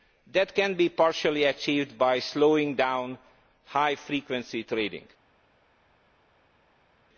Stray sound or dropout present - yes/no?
no